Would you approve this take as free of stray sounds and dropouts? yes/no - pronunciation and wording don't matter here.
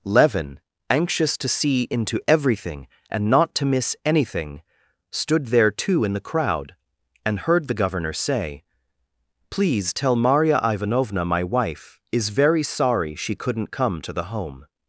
yes